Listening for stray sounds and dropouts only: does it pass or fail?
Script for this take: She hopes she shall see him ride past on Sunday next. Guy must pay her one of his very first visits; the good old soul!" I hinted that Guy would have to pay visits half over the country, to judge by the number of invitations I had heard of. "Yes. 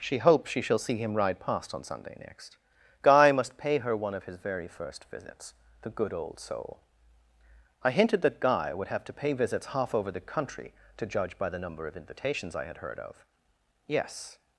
pass